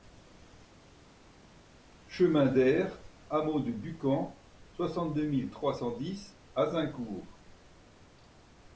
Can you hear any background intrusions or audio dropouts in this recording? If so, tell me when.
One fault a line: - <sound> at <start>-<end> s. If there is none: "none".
none